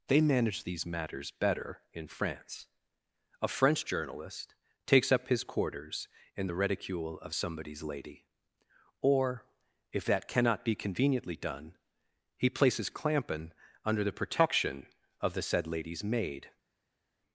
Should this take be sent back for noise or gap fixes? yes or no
no